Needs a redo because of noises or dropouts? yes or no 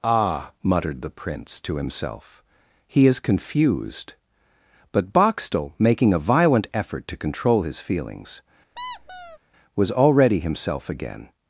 yes